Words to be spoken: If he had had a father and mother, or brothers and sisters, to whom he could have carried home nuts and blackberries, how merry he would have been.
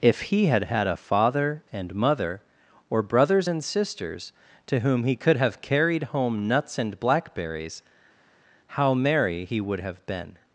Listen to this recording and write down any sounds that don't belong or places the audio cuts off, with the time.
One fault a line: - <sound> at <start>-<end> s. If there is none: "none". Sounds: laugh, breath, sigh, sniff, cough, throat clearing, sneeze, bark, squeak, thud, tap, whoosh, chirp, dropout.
none